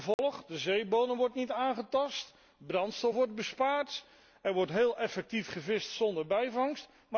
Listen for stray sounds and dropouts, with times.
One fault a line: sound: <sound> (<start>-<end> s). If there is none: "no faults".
sound: dropout (0.1-0.2 s)